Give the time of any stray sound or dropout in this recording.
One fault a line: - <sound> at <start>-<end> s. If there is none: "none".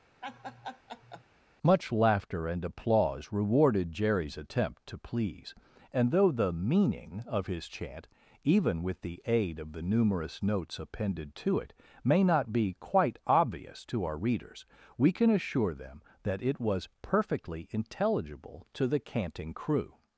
- laugh at 0.2-1.2 s